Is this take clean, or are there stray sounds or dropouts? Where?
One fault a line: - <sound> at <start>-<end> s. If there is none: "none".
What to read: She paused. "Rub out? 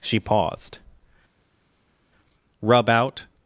none